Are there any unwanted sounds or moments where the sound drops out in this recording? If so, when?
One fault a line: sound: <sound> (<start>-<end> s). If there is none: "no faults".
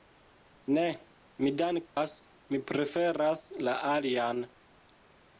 sound: dropout (1.9-2.0 s)